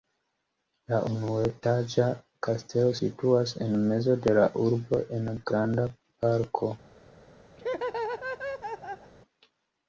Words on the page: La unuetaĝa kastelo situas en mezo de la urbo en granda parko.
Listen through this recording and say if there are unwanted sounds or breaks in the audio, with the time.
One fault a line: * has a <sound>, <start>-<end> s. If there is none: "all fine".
* has a laugh, 7.6-9.1 s